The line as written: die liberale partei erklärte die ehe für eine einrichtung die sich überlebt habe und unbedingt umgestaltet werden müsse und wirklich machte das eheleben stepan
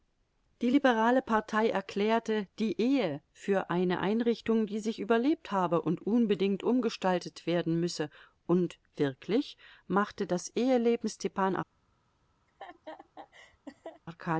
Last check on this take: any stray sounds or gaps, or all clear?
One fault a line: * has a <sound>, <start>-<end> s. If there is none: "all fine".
* has a laugh, 12.5-14.0 s